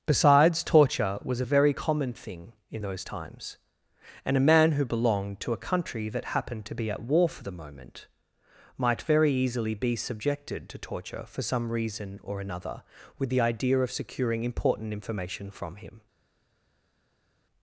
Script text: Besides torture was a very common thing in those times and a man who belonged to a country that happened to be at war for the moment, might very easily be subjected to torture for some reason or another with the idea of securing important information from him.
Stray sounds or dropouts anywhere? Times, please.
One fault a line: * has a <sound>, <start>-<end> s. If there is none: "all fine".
all fine